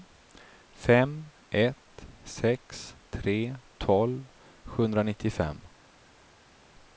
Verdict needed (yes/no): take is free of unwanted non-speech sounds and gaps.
yes